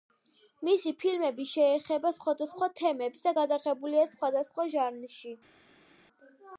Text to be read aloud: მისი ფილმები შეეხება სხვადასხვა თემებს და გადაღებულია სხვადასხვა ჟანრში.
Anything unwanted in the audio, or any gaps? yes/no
no